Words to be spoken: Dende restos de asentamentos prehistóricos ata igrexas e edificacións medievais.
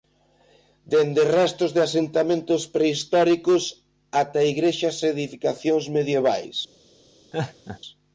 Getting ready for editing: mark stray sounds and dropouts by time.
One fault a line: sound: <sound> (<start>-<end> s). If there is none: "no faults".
sound: laugh (7.3-7.8 s)